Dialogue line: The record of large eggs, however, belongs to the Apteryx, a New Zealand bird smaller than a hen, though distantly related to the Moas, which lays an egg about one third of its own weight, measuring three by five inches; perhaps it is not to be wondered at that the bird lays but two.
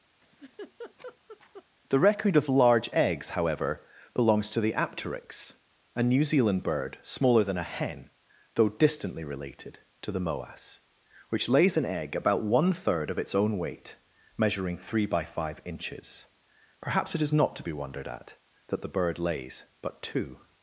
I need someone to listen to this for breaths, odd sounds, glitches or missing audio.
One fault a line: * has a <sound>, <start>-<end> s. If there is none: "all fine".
* has a laugh, 0.2-1.7 s